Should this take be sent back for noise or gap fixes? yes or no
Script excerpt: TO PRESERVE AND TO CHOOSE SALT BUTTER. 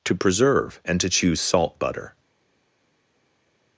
no